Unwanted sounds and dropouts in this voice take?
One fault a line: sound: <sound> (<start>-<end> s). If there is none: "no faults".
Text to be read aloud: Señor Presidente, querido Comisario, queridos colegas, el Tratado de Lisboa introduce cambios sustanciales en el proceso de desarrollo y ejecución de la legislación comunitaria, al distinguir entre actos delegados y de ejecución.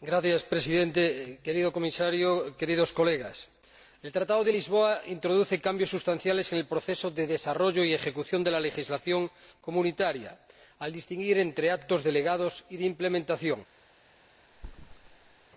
sound: thud (14.5-15.5 s)